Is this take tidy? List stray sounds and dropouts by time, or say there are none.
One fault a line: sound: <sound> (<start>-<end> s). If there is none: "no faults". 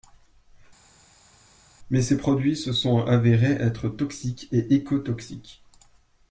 no faults